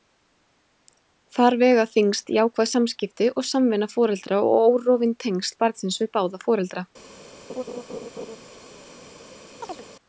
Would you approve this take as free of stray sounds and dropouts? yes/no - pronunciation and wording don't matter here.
no